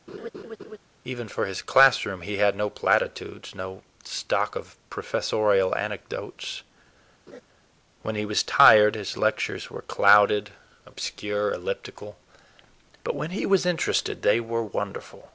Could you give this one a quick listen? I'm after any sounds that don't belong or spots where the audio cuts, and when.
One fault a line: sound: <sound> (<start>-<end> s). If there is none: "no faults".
sound: laugh (0.1-0.8 s)
sound: laugh (7.3-7.4 s)